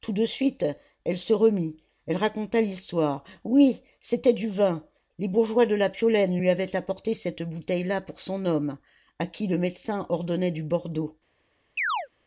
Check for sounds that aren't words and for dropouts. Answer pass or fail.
fail